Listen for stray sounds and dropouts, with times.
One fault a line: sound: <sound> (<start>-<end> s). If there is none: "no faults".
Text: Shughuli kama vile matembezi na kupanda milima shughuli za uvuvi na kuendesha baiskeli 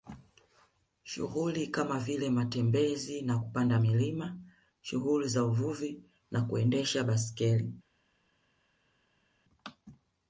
no faults